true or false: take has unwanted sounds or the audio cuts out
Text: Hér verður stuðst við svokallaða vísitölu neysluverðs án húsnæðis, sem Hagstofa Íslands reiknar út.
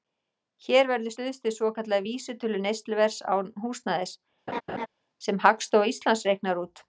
true